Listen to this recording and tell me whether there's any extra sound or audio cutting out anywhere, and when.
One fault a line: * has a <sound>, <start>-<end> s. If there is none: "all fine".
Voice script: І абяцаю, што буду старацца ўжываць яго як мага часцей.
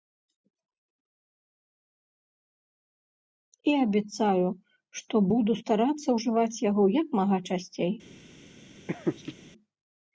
* has a laugh, 8.9-9.3 s